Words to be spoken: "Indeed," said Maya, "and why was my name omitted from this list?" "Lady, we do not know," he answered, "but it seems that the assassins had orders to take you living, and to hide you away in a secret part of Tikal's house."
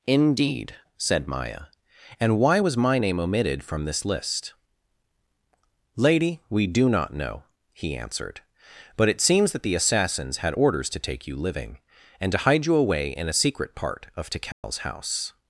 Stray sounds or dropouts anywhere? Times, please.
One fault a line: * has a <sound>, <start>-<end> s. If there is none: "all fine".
* has a dropout, 14.5-14.6 s